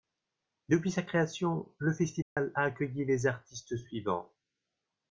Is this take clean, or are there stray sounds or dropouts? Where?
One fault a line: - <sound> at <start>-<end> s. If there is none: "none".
- dropout at 2.2-2.4 s